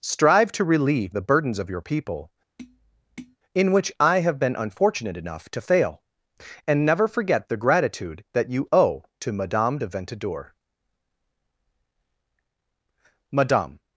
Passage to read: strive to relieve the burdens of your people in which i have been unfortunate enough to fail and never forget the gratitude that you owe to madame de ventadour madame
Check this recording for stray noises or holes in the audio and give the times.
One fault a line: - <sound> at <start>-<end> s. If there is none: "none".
- tap at 2.6-3.4 s